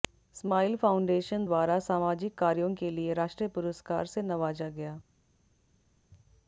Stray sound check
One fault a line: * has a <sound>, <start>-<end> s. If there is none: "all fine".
all fine